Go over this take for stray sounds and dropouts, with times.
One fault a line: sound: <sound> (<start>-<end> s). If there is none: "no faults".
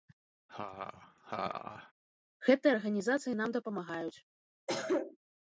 sound: laugh (0.5-1.9 s)
sound: cough (4.7-5.2 s)